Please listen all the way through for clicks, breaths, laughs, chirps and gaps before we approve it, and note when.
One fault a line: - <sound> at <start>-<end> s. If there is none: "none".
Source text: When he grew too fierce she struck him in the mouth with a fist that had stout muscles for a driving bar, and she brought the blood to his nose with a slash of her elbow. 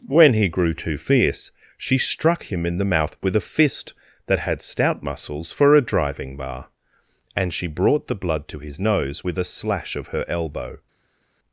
none